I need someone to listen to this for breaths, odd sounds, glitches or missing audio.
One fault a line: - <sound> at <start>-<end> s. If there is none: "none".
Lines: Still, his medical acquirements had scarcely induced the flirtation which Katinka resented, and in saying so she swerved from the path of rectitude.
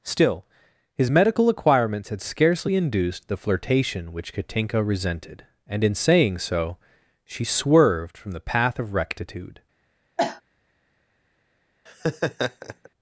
- cough at 10.2-10.4 s
- laugh at 11.9-12.9 s